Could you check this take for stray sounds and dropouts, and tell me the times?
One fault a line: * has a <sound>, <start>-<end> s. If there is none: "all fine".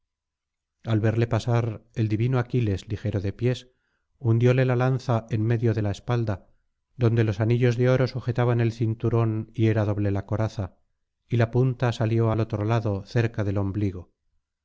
all fine